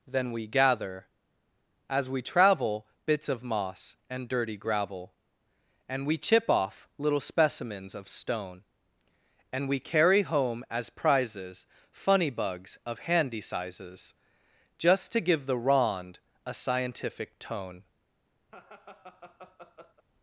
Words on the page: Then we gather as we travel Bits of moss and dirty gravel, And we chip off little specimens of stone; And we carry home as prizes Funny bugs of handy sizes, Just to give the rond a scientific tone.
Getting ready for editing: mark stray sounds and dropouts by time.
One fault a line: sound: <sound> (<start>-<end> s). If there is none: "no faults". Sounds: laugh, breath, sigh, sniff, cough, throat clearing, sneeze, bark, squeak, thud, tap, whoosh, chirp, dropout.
sound: laugh (18.5-20.0 s)